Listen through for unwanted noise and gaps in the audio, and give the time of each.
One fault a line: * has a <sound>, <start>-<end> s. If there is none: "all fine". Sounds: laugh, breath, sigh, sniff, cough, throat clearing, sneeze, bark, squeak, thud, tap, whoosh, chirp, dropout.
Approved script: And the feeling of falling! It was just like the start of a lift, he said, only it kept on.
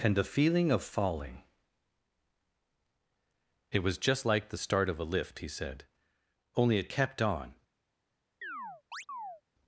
* has a chirp, 8.4-9.4 s